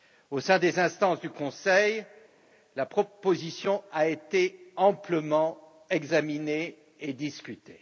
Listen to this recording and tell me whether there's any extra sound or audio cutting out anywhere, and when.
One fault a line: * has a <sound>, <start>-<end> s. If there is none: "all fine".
all fine